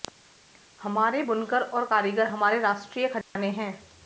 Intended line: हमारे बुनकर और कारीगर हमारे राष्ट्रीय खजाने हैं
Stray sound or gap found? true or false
true